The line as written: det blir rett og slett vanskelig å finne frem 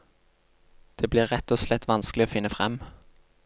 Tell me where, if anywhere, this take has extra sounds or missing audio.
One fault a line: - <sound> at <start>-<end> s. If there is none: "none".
none